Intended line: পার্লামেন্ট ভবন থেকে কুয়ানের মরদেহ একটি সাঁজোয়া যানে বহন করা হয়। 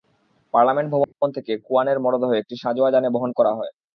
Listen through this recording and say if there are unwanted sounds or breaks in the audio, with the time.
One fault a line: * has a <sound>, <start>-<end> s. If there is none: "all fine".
* has a dropout, 1.0-1.1 s